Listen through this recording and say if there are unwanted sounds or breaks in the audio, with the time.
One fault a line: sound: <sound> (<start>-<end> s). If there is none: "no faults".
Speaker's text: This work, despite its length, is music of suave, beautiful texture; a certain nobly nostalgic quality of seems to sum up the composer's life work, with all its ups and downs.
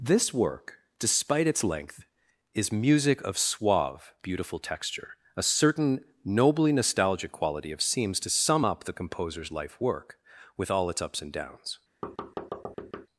sound: thud (12.0-13.1 s)